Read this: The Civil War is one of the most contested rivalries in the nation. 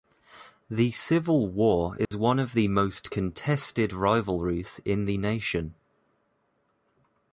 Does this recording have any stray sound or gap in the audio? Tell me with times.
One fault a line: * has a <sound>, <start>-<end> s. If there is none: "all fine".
* has a dropout, 2.0-2.1 s